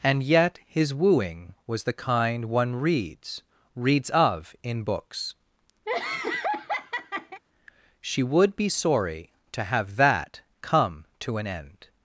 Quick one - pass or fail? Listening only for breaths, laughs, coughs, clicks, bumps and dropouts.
fail